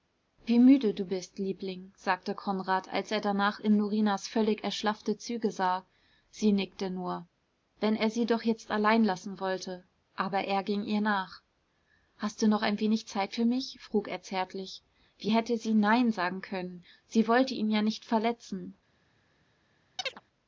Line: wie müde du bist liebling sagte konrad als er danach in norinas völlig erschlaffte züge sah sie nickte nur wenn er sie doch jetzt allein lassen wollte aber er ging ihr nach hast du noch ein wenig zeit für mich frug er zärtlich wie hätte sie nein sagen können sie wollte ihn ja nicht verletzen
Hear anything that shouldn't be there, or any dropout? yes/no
yes